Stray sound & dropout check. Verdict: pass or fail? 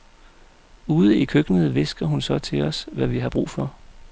pass